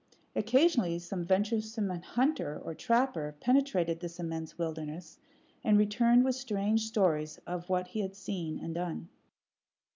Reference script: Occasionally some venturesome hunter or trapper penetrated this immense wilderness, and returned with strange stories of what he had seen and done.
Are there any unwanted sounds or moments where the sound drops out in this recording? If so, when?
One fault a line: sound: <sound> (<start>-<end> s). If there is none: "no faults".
no faults